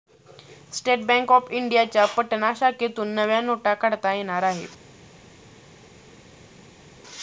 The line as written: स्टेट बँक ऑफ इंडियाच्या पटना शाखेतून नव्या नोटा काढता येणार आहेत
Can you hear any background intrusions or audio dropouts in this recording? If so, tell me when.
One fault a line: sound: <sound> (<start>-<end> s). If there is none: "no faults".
no faults